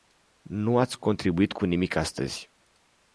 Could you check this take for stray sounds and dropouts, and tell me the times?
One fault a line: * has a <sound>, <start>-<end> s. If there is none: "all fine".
all fine